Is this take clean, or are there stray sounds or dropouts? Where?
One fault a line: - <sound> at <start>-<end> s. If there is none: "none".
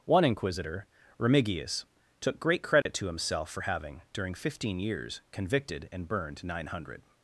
- dropout at 2.8-2.9 s